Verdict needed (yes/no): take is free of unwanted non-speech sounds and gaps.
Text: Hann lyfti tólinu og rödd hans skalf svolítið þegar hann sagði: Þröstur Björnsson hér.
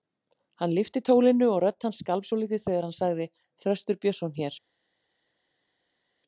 yes